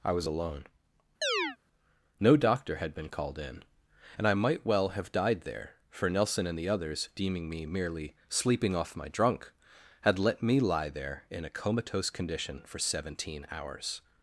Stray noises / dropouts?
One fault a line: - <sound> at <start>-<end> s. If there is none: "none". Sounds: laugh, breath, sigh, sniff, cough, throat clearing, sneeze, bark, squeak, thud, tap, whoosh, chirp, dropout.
- chirp at 1.2-1.6 s